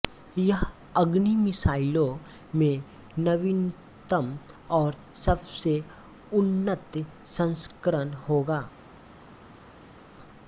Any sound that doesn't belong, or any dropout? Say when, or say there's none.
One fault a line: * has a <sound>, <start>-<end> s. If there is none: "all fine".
all fine